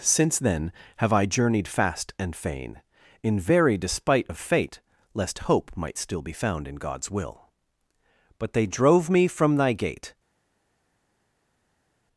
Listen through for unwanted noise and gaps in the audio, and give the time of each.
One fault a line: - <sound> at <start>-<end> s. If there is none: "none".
none